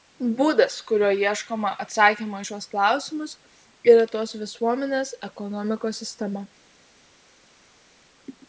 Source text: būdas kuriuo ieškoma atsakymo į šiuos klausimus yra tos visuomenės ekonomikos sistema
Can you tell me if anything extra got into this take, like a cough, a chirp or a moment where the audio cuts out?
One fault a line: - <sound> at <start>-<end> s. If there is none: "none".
none